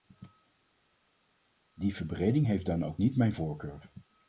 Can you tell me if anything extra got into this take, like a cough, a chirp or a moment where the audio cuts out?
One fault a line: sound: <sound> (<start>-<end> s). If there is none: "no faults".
no faults